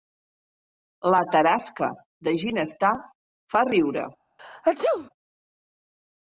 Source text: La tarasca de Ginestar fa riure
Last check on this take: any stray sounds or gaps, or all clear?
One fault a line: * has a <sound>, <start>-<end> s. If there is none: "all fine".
* has a sneeze, 4.4-5.1 s